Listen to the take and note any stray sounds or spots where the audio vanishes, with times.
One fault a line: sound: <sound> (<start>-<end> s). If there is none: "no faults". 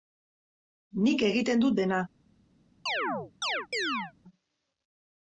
sound: chirp (2.9-4.1 s)